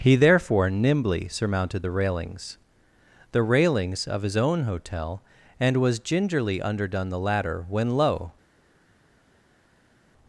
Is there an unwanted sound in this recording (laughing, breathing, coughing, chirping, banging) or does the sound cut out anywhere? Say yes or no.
no